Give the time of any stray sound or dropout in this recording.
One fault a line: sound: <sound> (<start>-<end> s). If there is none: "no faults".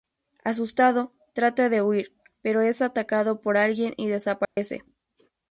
sound: dropout (4.4-4.6 s)